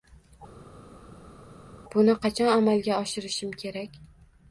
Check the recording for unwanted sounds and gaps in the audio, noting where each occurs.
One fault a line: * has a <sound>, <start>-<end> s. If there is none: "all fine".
all fine